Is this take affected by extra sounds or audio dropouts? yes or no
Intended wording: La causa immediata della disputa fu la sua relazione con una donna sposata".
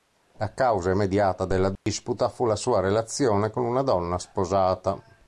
yes